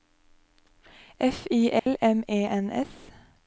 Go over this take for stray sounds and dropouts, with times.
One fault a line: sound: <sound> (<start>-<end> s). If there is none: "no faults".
sound: dropout (1.8-1.9 s)